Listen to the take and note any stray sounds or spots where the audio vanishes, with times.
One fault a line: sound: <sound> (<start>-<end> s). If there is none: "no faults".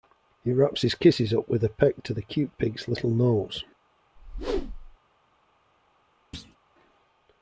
sound: whoosh (4.2-5.0 s)
sound: thud (6.3-6.6 s)